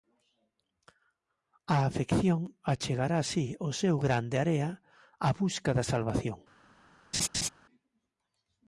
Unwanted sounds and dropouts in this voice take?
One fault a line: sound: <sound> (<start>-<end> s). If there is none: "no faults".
sound: laugh (7.1-7.5 s)